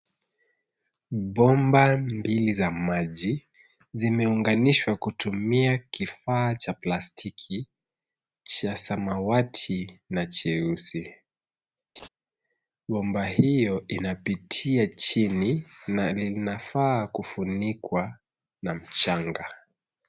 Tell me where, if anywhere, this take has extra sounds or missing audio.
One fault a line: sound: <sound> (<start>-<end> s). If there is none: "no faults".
sound: laugh (12.0-12.1 s)